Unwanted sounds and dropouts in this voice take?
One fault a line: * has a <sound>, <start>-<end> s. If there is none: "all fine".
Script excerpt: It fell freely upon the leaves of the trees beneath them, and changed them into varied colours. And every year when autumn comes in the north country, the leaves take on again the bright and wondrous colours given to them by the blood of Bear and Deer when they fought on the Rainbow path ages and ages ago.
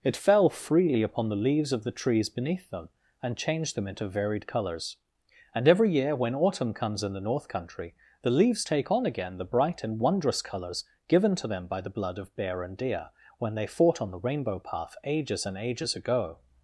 all fine